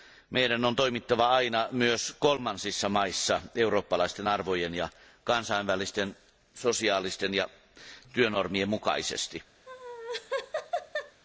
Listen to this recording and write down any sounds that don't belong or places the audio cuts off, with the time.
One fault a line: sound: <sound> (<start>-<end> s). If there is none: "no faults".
sound: laugh (9.7-11.2 s)